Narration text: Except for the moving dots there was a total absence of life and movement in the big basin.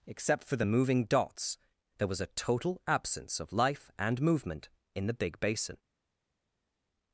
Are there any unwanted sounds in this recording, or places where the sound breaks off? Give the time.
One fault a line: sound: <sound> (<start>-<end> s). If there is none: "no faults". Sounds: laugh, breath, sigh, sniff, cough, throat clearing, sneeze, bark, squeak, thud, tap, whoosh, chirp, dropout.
no faults